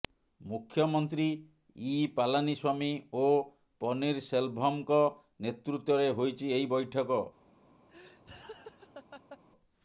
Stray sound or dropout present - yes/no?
yes